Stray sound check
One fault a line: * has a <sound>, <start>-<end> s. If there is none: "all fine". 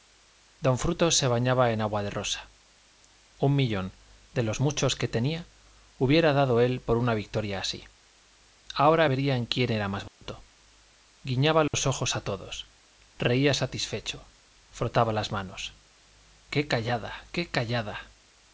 * has a dropout, 10.1-10.2 s
* has a dropout, 11.7-11.7 s